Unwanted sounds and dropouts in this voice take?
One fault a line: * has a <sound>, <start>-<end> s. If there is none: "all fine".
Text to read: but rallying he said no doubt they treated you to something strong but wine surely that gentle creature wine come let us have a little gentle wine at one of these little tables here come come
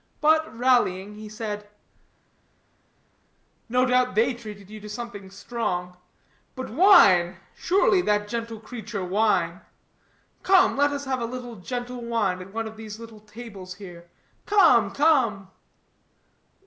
all fine